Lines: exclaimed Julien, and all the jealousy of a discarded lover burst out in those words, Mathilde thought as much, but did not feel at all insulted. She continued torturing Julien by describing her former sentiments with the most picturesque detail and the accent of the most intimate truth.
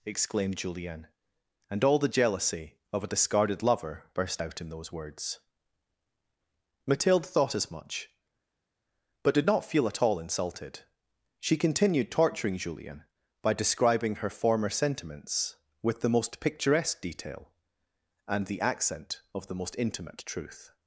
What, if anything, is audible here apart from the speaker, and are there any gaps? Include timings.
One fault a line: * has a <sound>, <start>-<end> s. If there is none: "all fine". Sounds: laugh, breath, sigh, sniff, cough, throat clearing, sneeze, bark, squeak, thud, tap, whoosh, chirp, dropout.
all fine